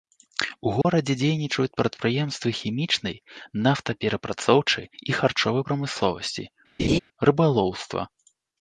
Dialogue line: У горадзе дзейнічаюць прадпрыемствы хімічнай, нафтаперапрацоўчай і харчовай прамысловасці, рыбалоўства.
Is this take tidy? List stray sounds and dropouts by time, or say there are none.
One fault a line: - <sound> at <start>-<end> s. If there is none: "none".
- dropout at 0.8-0.8 s
- laugh at 6.8-7.0 s